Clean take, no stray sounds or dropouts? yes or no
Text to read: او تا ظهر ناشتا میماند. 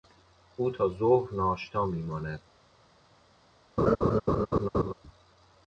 no